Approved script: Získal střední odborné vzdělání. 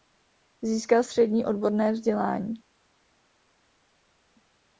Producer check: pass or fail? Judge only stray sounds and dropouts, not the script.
pass